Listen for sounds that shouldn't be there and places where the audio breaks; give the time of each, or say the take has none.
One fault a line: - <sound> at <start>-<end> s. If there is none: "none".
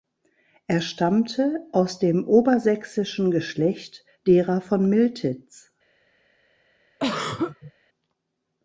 - throat clearing at 7.0-7.7 s